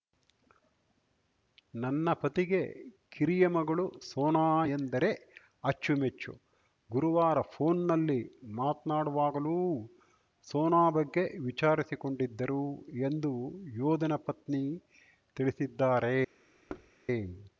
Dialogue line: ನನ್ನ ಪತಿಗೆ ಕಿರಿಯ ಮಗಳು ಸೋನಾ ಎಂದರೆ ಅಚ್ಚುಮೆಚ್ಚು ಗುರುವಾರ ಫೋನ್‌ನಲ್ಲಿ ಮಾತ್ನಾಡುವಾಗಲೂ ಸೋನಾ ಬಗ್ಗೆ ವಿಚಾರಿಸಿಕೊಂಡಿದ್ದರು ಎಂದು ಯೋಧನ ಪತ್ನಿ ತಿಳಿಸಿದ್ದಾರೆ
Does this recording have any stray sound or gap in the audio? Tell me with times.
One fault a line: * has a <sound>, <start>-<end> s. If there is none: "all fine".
* has a thud, 16.7-16.9 s